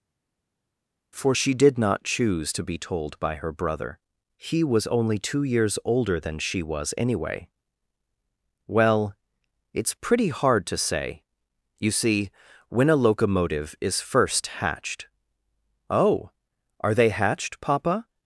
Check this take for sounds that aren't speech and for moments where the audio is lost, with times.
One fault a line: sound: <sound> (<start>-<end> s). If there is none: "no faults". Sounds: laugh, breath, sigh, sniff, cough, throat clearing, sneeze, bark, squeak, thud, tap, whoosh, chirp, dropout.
no faults